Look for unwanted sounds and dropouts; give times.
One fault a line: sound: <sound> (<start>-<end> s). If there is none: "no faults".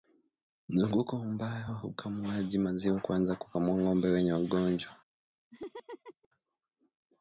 sound: laugh (5.5-6.3 s)